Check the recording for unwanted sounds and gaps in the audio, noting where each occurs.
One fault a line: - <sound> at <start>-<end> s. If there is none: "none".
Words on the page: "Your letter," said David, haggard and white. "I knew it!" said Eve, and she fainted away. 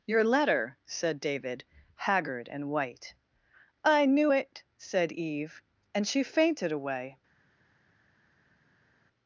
none